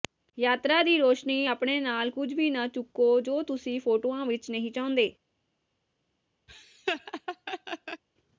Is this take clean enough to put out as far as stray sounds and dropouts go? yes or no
no